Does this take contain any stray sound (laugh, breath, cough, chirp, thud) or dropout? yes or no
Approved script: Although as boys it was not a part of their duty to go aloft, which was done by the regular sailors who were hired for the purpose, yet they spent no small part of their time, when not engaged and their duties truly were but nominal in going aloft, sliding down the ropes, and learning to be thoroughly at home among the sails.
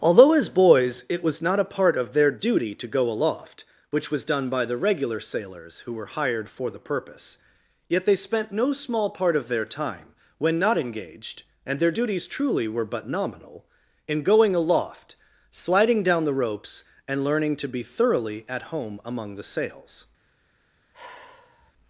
yes